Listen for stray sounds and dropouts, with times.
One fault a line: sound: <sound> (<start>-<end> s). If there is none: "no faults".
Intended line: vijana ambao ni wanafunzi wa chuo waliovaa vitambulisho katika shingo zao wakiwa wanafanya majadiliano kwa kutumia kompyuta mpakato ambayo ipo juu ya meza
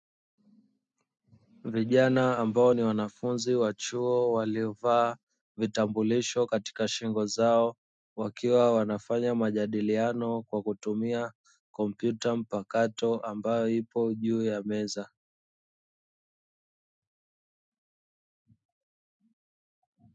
no faults